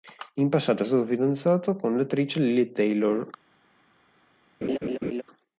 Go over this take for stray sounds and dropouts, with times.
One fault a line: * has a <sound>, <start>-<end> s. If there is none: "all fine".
* has a laugh, 4.6-5.2 s